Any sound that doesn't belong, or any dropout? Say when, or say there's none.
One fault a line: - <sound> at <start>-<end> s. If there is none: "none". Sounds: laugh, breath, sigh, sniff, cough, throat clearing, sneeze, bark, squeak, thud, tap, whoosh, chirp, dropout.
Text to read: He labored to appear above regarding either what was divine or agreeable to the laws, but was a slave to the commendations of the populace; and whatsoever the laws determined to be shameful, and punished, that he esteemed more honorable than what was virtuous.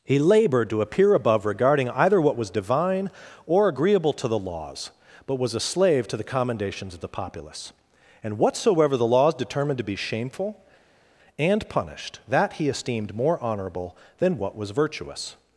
none